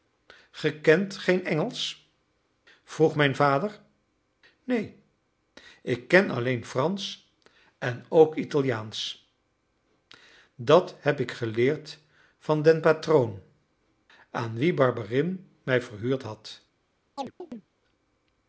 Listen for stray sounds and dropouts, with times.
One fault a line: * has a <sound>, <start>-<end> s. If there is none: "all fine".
* has a chirp, 17.2-17.7 s